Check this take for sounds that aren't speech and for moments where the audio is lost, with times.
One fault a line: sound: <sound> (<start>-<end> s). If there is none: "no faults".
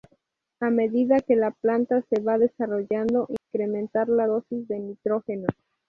sound: dropout (3.4-3.5 s)